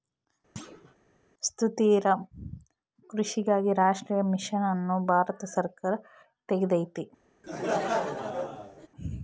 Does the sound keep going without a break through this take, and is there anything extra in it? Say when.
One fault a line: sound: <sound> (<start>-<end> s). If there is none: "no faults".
sound: thud (0.6-1.0 s)
sound: laugh (7.4-8.9 s)